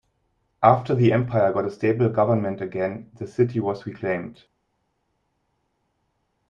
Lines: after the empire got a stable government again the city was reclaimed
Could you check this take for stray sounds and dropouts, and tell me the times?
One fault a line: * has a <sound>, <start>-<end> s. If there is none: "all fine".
all fine